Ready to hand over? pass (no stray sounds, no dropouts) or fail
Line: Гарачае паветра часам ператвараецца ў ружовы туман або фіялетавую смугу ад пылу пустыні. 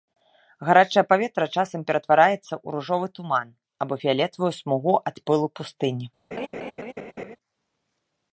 fail